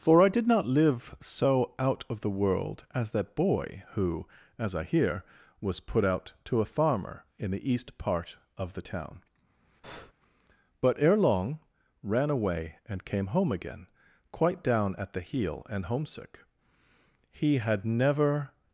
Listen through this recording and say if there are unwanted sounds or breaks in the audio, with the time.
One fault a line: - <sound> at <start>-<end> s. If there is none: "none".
- breath at 9.8-10.1 s